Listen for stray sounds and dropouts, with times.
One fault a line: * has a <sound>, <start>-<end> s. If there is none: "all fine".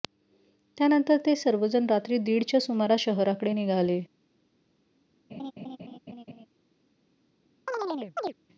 * has a laugh, 5.3-6.5 s
* has a chirp, 7.7-8.3 s